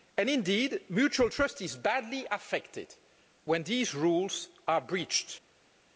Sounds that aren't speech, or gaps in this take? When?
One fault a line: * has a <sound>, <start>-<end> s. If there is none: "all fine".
all fine